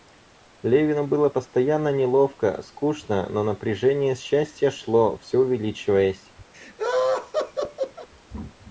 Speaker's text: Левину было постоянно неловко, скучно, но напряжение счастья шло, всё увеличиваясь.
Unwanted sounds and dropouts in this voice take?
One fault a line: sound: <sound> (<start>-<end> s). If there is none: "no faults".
sound: laugh (6.5-8.1 s)